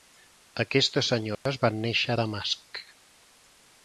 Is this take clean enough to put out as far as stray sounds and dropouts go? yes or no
no